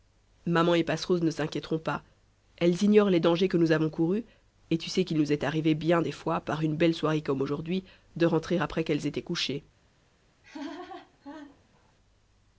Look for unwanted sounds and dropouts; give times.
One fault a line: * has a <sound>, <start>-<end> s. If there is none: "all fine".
* has a laugh, 10.4-11.9 s